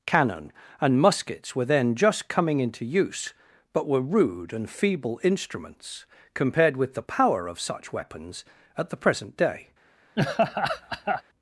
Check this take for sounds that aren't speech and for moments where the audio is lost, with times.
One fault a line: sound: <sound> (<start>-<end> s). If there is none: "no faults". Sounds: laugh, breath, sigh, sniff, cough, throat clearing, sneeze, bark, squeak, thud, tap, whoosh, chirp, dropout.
sound: laugh (10.2-11.2 s)